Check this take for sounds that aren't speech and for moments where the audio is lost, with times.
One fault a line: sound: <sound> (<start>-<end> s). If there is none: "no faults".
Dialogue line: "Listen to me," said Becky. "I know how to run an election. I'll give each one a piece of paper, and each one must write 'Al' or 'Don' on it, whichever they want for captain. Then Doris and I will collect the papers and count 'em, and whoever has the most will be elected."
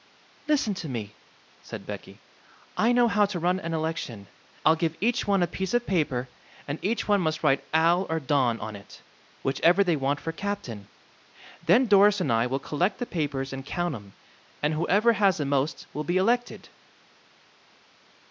no faults